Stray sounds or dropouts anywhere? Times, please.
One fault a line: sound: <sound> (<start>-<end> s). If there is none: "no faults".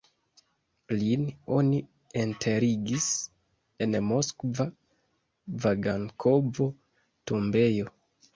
no faults